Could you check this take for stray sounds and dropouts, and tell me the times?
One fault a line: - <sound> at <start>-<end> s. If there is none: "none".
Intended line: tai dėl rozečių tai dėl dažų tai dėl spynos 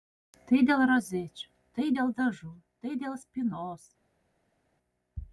none